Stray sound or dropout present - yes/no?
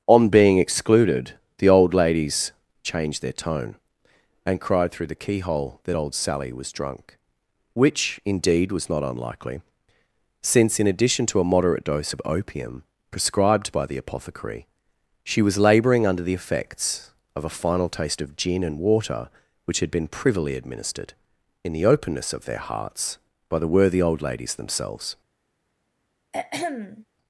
yes